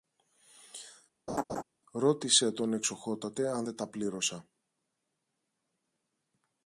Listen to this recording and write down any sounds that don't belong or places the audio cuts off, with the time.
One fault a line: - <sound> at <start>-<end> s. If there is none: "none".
- laugh at 1.3-1.6 s